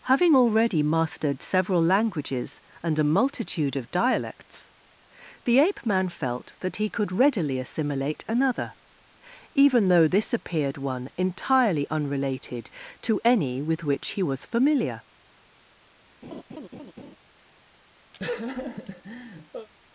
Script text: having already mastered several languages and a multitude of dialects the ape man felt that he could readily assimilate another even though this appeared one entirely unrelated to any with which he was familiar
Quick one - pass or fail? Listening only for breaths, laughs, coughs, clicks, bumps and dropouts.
fail